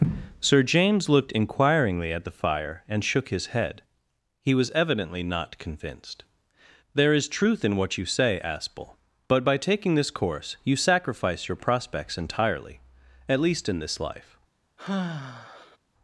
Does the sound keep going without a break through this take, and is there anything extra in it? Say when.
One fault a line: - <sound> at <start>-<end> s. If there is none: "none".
- sigh at 14.8-15.8 s